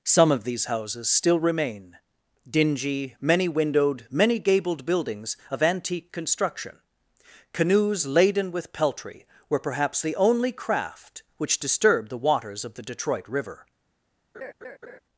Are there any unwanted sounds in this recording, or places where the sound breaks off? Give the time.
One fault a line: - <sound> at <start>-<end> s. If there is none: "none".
- laugh at 14.3-15.0 s